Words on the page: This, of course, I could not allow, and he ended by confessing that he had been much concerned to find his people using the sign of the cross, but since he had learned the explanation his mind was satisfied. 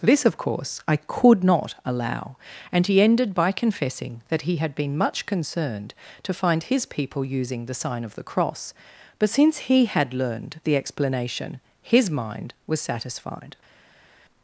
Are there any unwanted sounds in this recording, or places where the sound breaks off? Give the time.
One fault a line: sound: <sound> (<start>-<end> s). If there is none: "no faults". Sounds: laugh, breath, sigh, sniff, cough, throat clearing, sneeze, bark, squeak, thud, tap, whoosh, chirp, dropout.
no faults